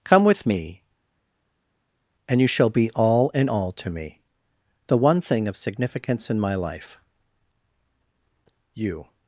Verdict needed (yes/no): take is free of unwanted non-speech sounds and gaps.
yes